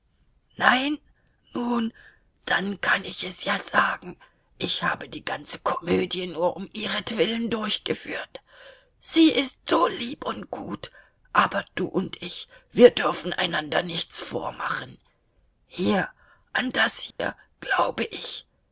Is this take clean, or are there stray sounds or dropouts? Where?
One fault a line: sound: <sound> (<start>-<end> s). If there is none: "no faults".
sound: dropout (17.1-17.2 s)